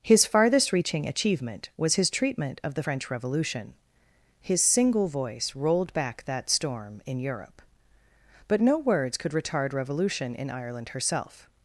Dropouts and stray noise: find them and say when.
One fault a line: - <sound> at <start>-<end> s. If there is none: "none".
none